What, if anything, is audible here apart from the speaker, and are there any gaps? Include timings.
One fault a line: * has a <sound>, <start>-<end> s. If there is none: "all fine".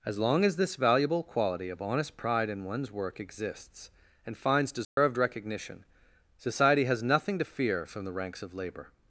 * has a dropout, 4.8-5.0 s